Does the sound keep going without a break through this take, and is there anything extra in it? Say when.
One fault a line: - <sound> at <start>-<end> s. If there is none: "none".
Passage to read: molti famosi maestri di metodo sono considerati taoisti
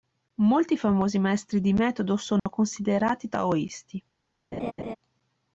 - dropout at 2.4-2.5 s
- laugh at 4.5-5.0 s